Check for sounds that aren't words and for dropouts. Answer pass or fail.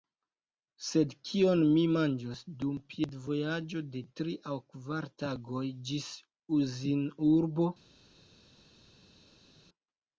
pass